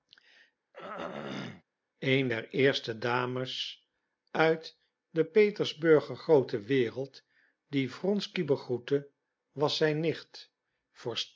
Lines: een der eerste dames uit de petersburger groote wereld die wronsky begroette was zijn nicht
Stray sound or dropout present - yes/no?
yes